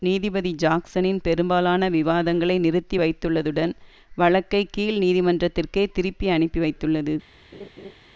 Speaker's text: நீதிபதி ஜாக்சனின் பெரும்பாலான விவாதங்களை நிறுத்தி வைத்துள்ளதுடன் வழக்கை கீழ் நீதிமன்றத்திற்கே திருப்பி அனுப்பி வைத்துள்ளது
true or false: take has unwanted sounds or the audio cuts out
true